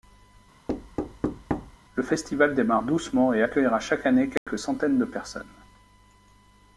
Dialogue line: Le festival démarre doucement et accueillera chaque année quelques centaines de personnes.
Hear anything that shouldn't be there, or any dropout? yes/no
yes